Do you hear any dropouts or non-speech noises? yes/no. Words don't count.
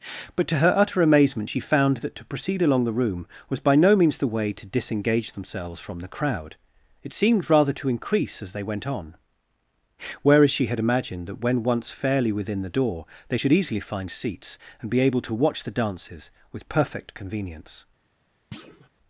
yes